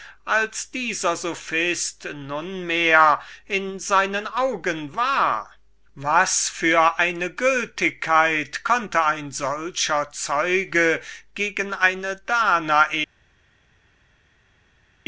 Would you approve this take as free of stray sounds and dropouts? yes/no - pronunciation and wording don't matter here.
yes